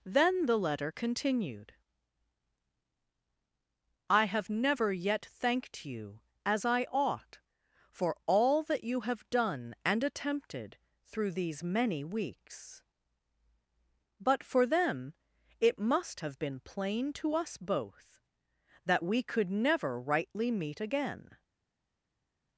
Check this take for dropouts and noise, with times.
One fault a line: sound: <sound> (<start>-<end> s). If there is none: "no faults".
no faults